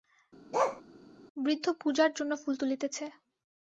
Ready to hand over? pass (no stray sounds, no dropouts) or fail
fail